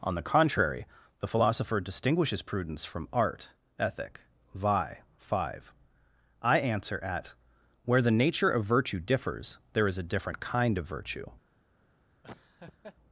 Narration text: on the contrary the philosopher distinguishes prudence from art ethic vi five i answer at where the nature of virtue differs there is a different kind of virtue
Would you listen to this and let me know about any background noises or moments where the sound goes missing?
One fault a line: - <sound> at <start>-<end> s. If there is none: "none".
- laugh at 12.2-13.0 s